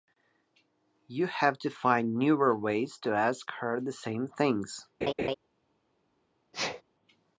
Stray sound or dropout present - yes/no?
yes